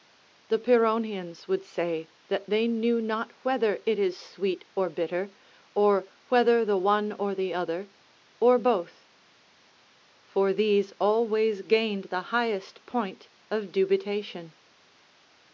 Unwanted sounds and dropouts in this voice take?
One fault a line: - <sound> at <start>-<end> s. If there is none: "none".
none